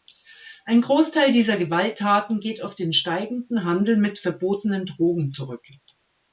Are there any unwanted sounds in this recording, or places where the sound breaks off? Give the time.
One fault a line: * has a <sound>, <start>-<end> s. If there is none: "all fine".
all fine